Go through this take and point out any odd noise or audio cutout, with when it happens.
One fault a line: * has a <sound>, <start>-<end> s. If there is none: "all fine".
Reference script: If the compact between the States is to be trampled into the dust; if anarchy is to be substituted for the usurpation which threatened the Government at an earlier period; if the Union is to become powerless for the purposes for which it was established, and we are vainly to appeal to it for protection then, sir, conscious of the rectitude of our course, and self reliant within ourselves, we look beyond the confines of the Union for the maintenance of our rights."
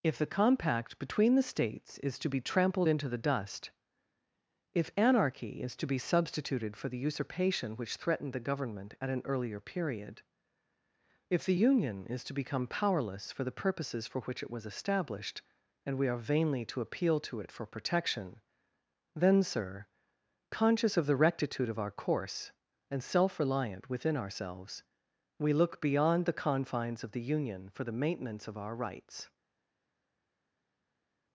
all fine